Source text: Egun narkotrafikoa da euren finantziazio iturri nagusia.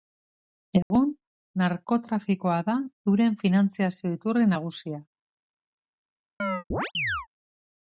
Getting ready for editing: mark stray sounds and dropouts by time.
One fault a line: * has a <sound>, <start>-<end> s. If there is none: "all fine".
* has a dropout, 0.8-0.9 s
* has a chirp, 6.4-7.3 s